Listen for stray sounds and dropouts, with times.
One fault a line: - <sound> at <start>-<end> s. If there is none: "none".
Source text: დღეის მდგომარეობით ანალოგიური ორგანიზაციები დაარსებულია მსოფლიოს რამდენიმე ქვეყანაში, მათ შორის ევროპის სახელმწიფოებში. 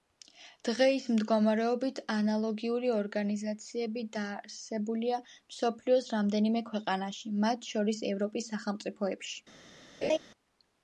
- laugh at 10.0-10.2 s